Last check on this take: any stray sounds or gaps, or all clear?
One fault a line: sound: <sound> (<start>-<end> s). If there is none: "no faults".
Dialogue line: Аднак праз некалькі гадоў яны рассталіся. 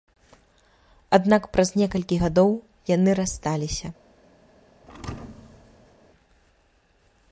sound: thud (4.8-5.9 s)